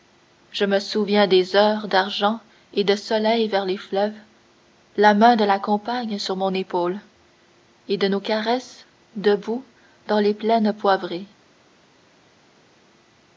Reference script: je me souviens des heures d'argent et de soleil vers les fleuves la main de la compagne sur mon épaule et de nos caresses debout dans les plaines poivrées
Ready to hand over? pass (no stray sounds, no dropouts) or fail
pass